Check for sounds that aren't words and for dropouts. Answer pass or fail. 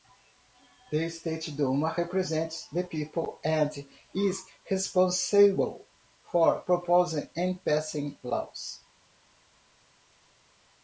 pass